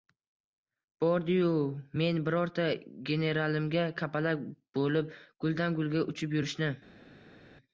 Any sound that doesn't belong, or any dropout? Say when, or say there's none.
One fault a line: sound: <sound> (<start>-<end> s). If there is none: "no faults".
no faults